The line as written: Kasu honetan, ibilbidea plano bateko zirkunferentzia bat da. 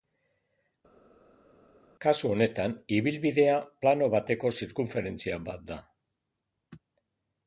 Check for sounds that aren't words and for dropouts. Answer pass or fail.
pass